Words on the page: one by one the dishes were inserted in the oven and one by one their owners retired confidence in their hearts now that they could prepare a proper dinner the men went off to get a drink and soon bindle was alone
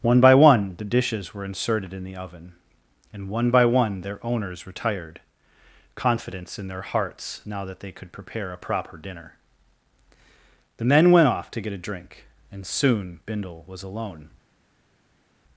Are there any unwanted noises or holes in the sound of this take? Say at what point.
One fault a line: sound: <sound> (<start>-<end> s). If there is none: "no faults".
no faults